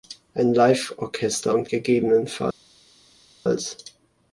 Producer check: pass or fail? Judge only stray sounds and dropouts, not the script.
pass